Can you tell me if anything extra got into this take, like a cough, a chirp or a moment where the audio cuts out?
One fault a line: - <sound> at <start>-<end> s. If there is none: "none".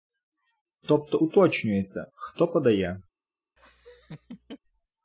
- laugh at 3.6-4.6 s